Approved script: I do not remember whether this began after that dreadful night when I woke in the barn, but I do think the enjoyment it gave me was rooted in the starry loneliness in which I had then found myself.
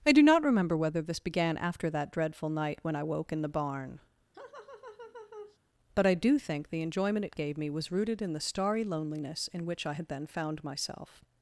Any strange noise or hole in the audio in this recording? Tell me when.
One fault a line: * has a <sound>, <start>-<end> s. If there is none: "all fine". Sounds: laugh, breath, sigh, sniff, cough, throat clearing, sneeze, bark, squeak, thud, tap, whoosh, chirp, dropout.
* has a laugh, 4.3-5.6 s